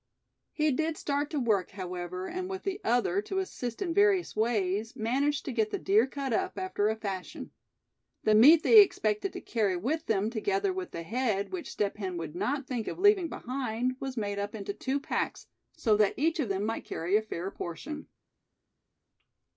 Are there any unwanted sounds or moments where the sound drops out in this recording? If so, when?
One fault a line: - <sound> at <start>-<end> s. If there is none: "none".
none